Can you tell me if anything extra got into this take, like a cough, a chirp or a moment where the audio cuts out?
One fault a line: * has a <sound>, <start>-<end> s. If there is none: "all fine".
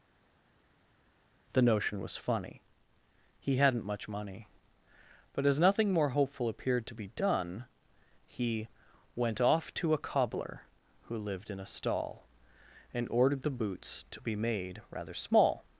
all fine